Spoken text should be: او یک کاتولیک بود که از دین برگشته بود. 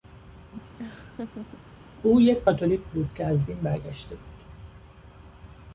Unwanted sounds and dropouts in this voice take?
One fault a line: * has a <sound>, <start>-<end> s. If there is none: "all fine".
* has a laugh, 0.8-1.6 s